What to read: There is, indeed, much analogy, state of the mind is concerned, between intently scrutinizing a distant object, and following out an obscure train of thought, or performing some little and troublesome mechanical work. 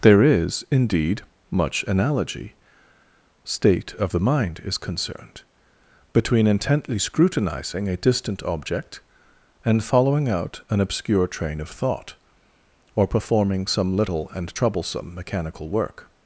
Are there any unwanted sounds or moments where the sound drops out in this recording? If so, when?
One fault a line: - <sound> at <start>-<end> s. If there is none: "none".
none